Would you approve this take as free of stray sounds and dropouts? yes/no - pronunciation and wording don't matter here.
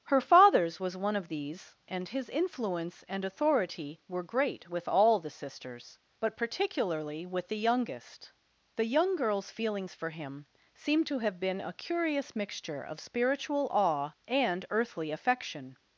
yes